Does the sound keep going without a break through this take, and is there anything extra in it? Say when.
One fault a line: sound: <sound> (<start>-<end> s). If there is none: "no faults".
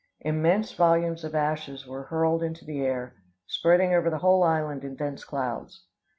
no faults